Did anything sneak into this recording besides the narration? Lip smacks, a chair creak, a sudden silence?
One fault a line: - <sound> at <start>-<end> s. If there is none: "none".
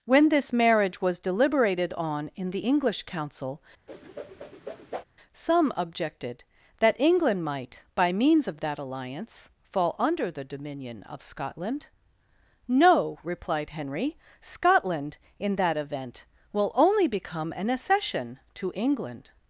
- whoosh at 3.9-5.0 s